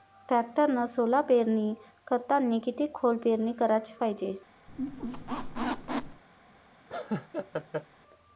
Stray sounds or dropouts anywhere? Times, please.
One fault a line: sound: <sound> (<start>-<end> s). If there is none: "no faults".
sound: squeak (4.7-6.2 s)
sound: laugh (6.9-7.9 s)